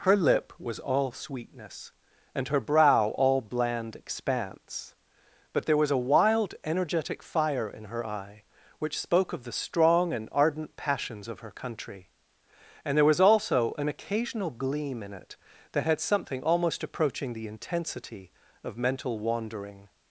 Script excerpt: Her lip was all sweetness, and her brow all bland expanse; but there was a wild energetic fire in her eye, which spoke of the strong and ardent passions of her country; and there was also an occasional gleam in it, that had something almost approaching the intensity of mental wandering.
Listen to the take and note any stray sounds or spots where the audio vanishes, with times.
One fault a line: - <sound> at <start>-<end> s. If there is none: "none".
none